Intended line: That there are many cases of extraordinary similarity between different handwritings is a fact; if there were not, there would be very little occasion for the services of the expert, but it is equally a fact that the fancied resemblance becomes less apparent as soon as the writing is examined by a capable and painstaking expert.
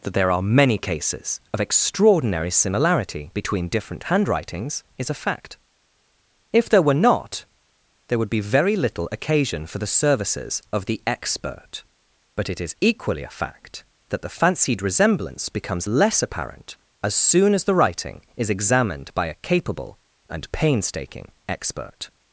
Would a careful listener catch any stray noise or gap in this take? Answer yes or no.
no